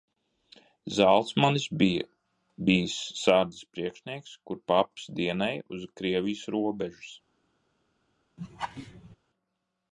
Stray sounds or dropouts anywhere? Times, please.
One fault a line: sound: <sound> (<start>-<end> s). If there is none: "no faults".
sound: laugh (8.4-9.2 s)